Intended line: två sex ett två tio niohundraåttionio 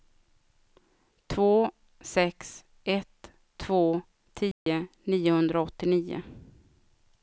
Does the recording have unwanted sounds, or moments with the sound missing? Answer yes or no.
yes